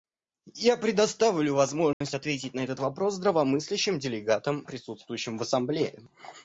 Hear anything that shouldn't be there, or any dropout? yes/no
yes